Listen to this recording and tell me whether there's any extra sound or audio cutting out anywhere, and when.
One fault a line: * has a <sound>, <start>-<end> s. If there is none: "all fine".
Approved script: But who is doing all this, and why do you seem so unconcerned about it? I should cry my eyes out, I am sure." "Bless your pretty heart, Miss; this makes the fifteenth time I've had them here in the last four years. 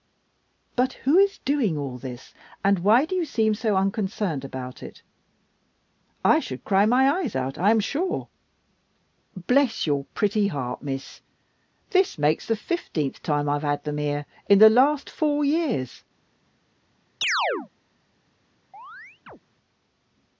* has a chirp, 17.2-17.7 s
* has a chirp, 18.7-19.4 s